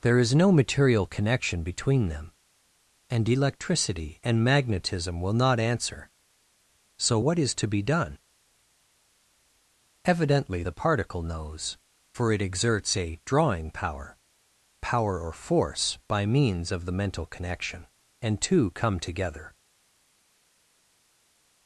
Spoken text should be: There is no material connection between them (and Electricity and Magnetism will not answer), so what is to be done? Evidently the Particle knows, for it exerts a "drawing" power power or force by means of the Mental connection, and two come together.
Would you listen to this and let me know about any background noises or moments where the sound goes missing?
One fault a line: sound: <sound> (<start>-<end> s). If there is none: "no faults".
no faults